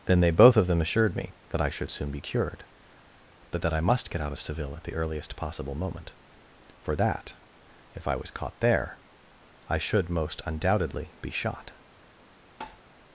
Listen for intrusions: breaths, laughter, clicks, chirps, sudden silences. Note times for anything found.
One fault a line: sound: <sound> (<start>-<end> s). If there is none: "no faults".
sound: tap (12.6-12.8 s)